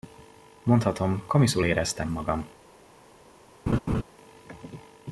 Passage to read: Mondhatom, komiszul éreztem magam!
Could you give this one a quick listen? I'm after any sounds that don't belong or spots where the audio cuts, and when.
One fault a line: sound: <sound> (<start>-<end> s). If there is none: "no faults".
sound: laugh (3.7-4.0 s)